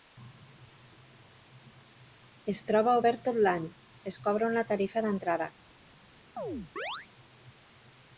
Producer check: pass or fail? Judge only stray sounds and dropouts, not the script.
fail